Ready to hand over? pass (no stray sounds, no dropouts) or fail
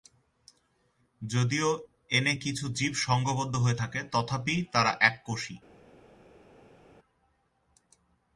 pass